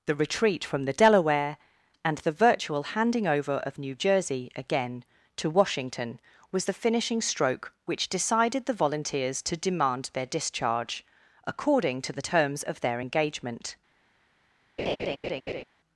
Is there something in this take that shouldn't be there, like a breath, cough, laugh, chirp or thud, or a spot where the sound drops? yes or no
yes